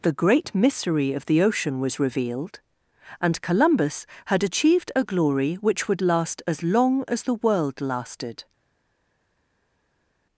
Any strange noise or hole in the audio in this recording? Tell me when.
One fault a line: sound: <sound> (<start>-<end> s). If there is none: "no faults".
no faults